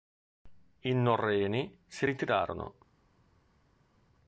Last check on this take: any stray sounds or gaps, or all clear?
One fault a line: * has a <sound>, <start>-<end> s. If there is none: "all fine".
all fine